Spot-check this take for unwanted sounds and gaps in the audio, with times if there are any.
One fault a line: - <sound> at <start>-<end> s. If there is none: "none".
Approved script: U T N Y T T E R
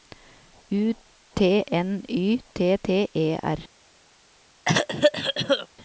- cough at 4.6-5.7 s